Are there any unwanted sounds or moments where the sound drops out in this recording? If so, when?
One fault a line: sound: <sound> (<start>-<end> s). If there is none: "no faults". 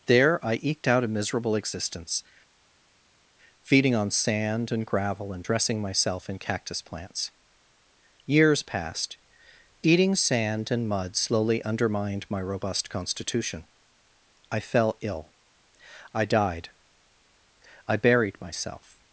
no faults